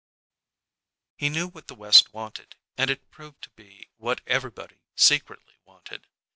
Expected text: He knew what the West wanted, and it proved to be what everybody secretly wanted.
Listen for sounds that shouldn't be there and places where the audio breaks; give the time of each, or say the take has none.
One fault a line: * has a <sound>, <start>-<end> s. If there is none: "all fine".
all fine